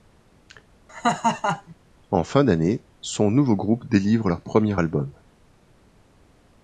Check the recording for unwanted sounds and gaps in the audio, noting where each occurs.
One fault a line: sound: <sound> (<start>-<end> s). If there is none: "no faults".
sound: laugh (0.9-1.8 s)